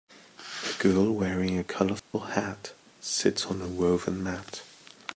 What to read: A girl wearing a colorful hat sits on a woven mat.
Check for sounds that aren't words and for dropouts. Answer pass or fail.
fail